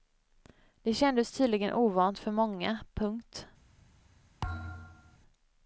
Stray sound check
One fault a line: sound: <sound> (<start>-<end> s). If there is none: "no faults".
sound: thud (4.4-5.2 s)